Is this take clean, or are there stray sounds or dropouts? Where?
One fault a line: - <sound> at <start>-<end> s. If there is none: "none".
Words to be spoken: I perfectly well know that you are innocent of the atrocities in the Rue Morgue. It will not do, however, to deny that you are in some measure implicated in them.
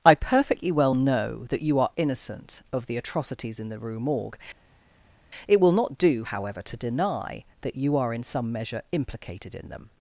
none